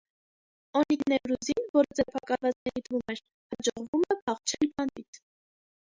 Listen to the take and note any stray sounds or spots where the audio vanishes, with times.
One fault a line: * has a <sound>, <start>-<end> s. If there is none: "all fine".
* has a dropout, 2.6-2.7 s